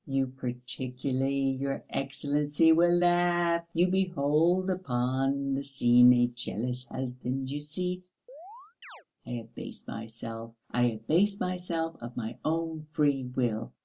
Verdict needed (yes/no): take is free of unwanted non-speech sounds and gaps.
no